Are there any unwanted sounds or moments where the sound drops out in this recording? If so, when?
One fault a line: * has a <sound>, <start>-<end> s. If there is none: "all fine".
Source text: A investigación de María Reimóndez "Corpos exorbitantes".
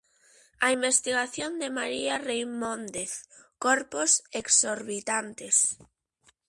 all fine